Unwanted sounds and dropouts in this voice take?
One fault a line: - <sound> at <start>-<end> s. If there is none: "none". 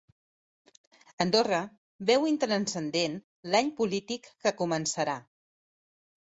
none